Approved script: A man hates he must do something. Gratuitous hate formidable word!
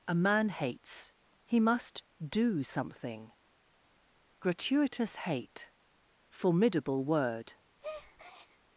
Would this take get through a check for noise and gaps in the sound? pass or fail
fail